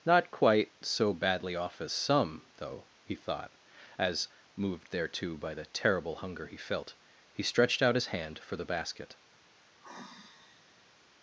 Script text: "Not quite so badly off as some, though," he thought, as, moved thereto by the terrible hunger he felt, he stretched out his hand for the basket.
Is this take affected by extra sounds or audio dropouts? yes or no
yes